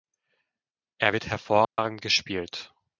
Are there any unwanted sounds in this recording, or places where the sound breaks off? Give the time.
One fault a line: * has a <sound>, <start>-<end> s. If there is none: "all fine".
* has a dropout, 1.6-1.8 s